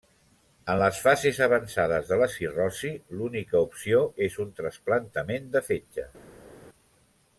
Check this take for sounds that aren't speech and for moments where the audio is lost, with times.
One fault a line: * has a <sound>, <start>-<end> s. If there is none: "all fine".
all fine